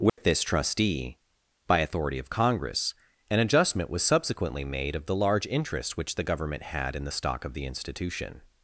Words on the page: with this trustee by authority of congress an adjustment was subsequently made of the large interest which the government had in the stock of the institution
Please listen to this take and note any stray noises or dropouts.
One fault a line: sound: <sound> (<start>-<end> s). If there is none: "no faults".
sound: dropout (0.1-0.2 s)